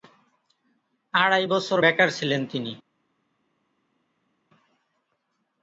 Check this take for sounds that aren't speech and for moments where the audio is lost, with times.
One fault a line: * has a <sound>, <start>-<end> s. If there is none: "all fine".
all fine